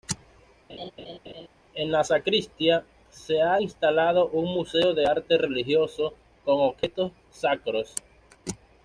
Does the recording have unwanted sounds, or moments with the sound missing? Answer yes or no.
yes